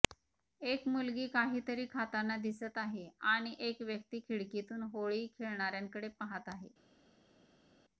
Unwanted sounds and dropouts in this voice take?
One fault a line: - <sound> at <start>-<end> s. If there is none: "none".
none